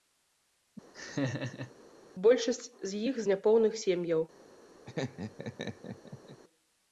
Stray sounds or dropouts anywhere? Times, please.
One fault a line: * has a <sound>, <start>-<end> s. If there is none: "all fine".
* has a laugh, 0.9-1.7 s
* has a laugh, 4.8-6.4 s